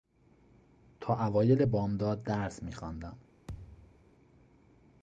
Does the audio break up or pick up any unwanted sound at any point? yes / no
yes